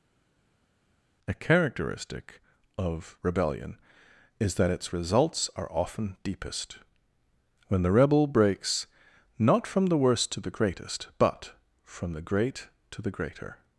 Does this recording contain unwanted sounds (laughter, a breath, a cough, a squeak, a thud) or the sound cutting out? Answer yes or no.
no